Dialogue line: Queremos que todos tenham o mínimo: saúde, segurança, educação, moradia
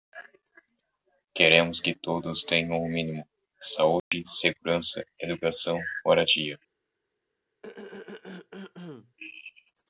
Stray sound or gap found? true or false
true